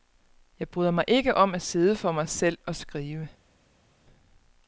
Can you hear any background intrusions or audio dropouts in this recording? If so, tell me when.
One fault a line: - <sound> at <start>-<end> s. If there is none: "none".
none